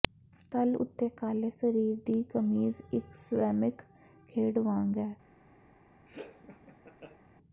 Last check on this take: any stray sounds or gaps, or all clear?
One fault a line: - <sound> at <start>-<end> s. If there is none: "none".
- laugh at 6.1-7.2 s